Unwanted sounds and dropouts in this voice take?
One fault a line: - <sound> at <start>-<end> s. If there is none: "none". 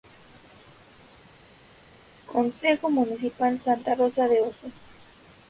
none